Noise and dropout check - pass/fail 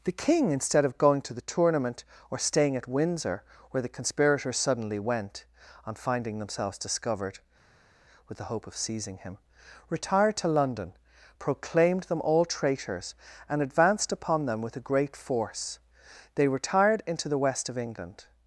pass